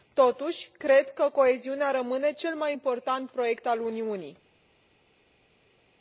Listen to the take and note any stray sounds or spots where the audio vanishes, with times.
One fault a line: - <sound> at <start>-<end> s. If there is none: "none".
none